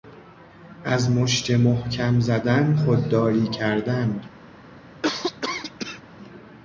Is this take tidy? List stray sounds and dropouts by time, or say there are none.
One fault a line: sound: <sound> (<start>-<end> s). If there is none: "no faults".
sound: cough (5.0-6.0 s)